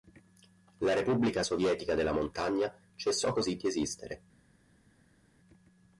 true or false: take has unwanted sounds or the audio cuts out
false